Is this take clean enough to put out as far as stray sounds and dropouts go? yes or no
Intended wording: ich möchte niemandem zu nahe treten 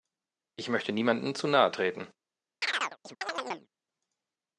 no